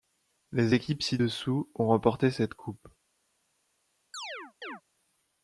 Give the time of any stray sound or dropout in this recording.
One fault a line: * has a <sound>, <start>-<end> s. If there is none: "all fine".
* has a chirp, 4.1-4.8 s